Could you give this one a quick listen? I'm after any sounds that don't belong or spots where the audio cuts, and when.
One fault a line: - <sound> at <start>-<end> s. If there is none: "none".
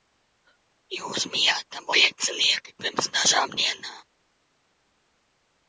none